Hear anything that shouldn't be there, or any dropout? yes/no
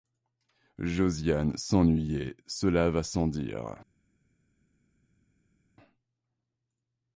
no